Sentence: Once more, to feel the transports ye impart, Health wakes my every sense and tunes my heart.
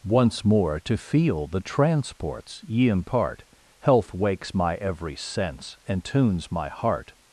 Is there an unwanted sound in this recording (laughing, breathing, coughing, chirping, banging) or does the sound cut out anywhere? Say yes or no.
no